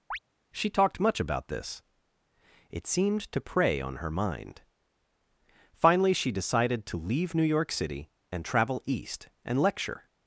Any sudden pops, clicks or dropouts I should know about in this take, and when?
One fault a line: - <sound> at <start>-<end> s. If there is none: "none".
- chirp at 0.1-0.2 s